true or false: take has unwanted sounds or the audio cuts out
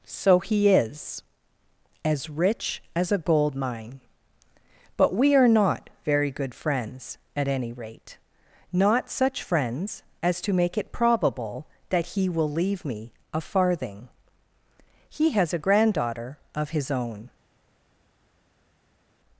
false